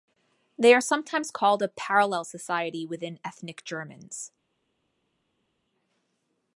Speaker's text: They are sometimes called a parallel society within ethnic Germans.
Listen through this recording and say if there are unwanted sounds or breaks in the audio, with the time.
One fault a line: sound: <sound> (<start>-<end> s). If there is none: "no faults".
no faults